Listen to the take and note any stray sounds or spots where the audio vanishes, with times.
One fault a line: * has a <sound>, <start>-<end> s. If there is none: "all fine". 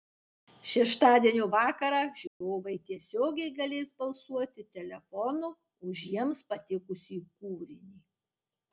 * has a dropout, 2.3-2.4 s